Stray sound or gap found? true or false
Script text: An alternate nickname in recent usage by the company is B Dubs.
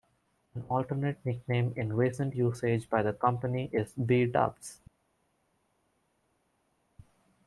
false